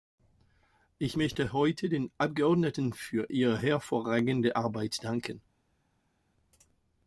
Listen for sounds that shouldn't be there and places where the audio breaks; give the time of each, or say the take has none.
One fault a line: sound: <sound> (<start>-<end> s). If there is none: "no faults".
no faults